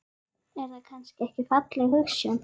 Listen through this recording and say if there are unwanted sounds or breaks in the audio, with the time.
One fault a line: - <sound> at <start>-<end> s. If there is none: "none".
none